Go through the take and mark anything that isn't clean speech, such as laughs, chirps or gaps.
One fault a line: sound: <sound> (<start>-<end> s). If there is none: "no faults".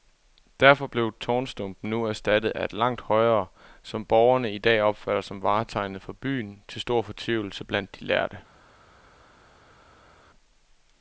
no faults